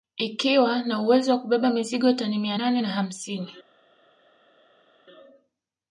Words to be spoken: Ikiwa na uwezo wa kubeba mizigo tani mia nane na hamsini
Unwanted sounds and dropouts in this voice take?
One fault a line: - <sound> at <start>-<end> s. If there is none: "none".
none